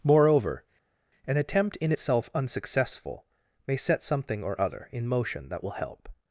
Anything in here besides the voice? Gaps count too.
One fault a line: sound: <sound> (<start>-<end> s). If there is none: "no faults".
no faults